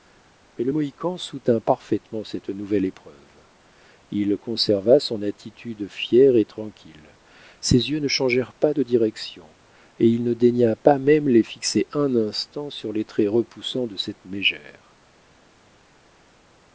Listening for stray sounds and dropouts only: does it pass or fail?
pass